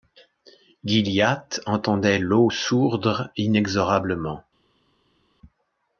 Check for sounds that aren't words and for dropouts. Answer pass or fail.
pass